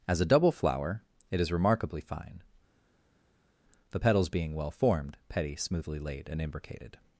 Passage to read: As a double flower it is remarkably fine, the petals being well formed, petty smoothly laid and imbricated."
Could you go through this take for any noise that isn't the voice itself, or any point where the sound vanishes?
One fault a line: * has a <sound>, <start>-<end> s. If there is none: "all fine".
all fine